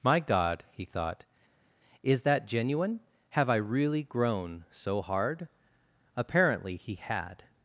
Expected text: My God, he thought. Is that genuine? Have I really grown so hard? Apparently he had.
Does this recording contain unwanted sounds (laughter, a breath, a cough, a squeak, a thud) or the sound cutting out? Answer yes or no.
no